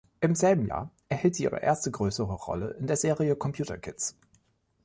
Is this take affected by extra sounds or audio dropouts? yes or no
no